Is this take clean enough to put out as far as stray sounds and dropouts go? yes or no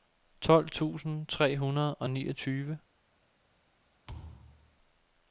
no